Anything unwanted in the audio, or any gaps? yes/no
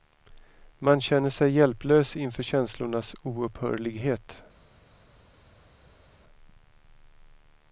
no